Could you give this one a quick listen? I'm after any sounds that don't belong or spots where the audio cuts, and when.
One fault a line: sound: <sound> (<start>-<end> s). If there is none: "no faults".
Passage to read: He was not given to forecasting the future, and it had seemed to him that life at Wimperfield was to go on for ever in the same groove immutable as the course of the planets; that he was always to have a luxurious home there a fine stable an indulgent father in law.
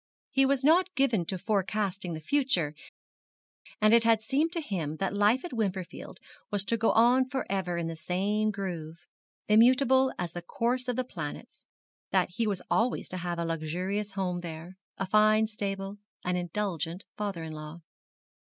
no faults